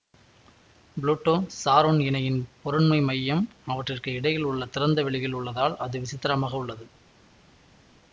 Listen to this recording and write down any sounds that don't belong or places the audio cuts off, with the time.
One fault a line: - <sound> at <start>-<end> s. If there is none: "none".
none